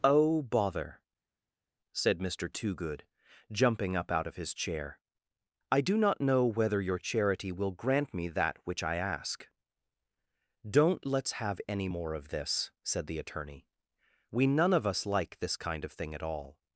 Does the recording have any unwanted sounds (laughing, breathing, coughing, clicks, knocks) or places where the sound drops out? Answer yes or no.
no